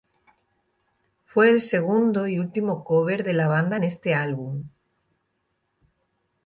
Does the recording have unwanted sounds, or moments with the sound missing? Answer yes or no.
no